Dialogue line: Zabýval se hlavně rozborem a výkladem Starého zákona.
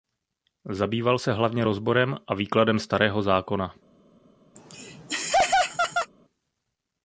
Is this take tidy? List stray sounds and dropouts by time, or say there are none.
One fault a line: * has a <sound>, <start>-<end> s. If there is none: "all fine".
* has a laugh, 4.6-6.1 s